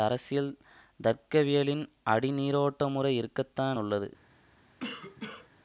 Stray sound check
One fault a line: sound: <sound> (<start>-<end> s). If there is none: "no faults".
sound: cough (4.8-5.5 s)